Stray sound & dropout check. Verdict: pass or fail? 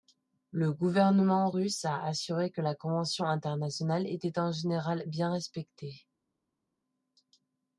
pass